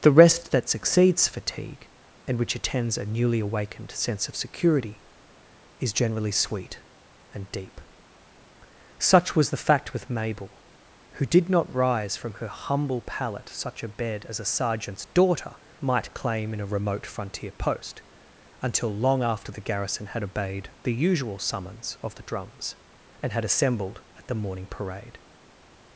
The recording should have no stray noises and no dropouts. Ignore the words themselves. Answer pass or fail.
pass